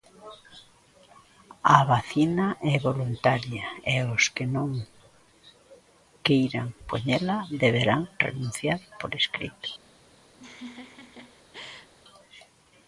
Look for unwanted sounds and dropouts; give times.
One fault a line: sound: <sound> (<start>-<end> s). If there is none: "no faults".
sound: laugh (10.4-11.9 s)